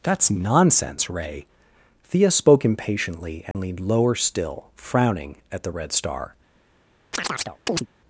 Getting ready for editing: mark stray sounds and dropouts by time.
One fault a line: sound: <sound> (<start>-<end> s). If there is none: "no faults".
sound: dropout (3.5-3.5 s)
sound: chirp (7.1-7.9 s)